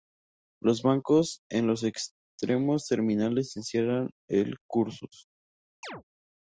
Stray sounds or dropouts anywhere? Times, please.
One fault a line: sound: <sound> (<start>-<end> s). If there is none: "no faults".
sound: chirp (5.8-6.0 s)